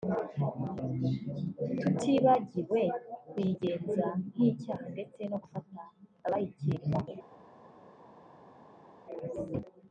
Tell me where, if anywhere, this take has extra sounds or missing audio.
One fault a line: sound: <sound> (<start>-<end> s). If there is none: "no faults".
no faults